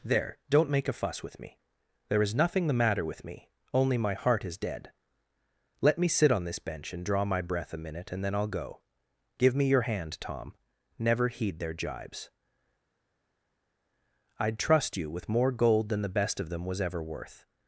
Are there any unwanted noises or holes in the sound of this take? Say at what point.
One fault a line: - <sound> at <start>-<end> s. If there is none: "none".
none